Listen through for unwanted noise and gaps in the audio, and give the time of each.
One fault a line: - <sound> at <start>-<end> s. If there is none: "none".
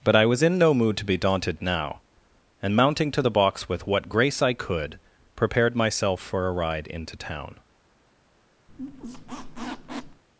- squeak at 8.7-10.2 s